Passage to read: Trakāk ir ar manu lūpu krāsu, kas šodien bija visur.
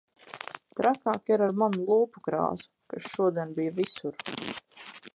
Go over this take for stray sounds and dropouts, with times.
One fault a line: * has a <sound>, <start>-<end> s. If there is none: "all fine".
all fine